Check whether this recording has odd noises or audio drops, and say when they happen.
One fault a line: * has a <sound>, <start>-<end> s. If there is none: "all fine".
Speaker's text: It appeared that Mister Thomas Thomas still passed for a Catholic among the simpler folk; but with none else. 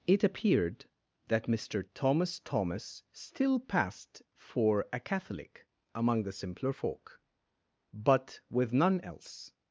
all fine